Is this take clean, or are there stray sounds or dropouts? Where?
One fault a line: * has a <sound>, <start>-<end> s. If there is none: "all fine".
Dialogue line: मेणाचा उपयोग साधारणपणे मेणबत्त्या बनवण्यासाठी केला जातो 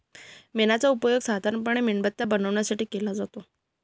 all fine